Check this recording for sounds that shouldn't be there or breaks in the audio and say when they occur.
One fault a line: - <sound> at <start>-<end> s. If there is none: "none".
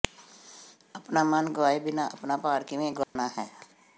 - dropout at 3.0-3.2 s